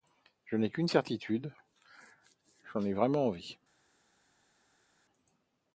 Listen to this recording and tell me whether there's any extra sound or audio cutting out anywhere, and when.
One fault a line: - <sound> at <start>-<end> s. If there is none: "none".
none